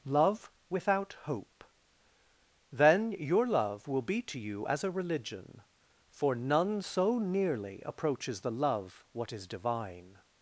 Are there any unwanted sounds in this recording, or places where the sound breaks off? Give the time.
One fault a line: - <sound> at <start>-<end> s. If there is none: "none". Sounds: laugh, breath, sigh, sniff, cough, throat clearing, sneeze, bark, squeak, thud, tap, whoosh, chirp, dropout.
none